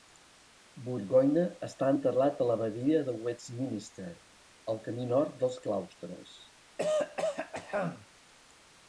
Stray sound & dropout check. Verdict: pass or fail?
fail